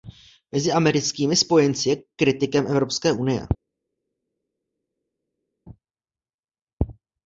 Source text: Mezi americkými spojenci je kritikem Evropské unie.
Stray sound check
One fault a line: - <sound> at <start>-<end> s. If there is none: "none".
none